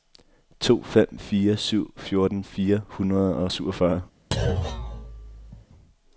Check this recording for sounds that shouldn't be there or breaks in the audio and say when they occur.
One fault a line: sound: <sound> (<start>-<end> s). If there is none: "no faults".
sound: thud (4.3-5.7 s)